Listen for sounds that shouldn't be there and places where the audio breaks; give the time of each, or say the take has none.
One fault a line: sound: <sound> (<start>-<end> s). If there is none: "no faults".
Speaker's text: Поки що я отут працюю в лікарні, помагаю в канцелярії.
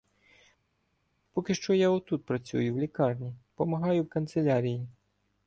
no faults